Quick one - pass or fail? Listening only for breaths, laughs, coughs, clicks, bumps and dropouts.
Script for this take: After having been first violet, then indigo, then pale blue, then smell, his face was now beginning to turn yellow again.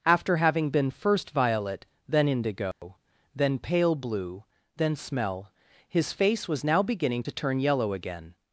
fail